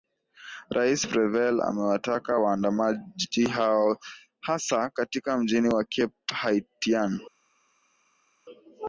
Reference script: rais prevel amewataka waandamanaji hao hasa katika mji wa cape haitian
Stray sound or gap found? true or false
false